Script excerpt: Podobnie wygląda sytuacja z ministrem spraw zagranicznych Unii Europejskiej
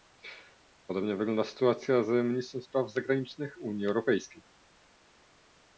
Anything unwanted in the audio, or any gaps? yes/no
no